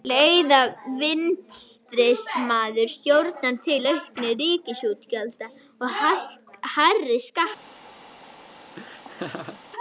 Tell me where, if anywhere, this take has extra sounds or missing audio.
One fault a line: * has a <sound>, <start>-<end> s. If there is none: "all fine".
* has a laugh, 8.8-9.6 s